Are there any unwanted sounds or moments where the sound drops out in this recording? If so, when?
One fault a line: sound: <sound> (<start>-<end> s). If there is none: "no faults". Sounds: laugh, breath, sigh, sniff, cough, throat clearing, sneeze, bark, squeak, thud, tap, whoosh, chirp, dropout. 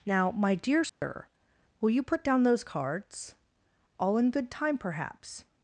sound: dropout (0.9-1.0 s)